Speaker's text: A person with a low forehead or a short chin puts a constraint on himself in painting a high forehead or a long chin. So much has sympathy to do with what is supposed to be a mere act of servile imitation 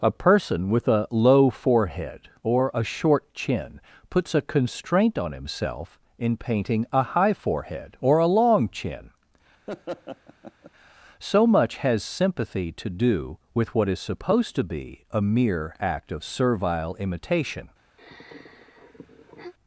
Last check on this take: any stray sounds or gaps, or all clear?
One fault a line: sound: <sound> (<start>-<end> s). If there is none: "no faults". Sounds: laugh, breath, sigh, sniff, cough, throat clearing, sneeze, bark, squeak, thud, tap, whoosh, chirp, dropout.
sound: laugh (9.7-10.7 s)
sound: sigh (18.0-19.5 s)